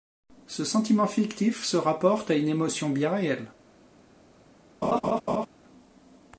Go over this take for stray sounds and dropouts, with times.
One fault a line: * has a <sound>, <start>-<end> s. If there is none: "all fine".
* has a laugh, 4.8-5.5 s